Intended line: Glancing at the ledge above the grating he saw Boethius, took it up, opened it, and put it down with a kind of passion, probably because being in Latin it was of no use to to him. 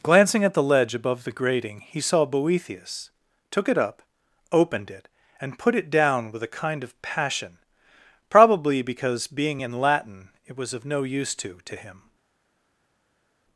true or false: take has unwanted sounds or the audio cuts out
false